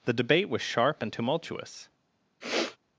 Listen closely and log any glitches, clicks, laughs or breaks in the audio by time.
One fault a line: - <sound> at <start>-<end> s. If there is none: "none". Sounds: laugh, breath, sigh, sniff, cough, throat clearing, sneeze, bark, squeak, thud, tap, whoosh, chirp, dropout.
- sniff at 2.4-2.8 s